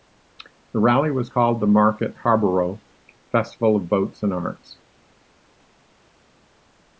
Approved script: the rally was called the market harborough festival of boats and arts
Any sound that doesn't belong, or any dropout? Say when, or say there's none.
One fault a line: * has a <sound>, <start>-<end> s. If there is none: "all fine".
all fine